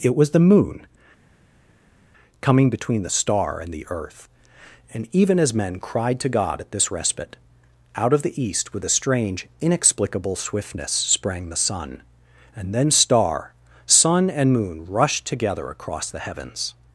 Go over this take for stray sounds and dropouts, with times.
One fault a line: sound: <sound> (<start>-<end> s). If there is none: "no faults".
no faults